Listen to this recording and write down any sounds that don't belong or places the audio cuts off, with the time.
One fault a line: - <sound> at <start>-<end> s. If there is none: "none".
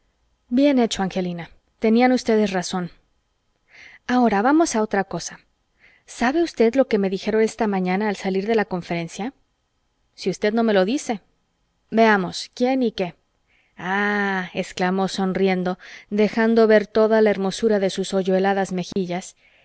- dropout at 18.9-19.0 s